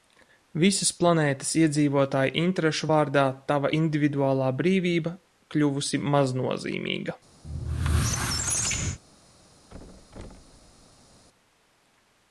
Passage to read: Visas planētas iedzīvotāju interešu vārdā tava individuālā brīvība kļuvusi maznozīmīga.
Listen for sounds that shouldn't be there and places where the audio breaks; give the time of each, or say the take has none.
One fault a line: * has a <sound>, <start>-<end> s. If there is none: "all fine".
* has a squeak, 7.4-9.0 s
* has a thud, 9.7-11.2 s